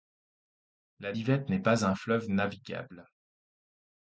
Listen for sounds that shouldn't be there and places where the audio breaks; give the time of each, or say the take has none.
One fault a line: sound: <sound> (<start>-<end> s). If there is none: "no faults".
no faults